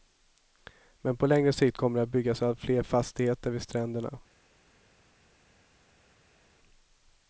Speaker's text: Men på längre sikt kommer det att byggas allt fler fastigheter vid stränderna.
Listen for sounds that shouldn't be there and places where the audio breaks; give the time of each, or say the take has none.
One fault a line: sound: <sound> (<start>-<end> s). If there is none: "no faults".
no faults